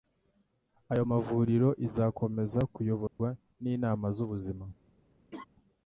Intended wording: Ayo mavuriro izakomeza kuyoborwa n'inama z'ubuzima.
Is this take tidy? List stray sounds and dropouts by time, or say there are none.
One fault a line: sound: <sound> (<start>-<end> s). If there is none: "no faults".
sound: dropout (3.1-3.2 s)
sound: laugh (5.3-5.4 s)